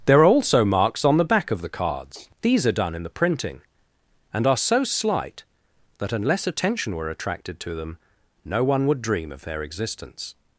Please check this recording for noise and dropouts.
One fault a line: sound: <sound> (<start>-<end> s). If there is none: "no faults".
no faults